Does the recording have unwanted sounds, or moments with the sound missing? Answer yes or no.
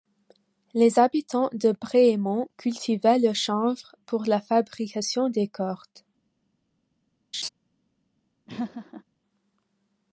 yes